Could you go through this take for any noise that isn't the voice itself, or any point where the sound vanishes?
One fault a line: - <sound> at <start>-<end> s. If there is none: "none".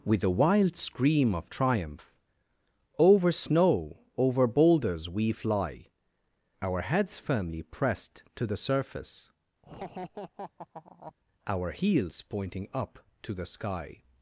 - laugh at 9.6-11.1 s